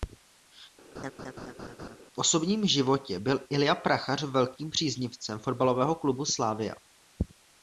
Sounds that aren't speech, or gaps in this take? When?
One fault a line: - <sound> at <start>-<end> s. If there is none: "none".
- laugh at 0.9-2.0 s